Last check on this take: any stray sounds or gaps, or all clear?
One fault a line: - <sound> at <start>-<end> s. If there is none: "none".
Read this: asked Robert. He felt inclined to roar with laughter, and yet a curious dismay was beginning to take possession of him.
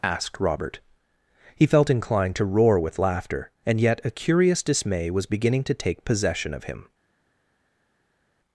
none